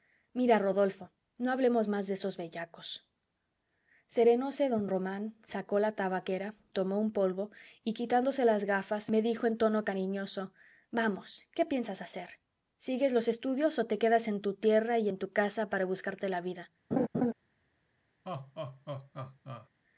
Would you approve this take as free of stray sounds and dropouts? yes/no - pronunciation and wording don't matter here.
no